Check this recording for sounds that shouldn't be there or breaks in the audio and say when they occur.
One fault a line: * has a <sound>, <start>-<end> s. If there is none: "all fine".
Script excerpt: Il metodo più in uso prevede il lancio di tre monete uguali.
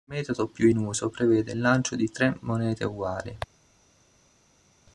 all fine